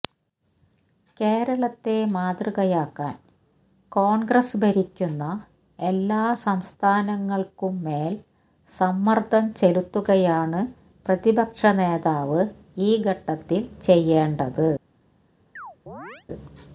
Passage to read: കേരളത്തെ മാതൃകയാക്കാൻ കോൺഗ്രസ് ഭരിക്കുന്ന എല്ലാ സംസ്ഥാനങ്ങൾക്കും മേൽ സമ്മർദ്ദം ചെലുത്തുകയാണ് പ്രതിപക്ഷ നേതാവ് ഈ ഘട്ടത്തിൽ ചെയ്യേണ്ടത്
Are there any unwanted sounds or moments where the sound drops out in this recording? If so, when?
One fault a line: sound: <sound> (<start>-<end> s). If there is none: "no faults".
sound: chirp (15.6-16.3 s)